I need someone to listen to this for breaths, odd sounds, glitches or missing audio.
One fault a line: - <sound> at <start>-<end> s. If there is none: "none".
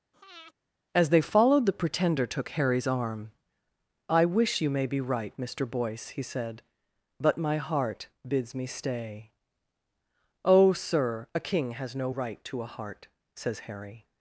- breath at 0.1-0.5 s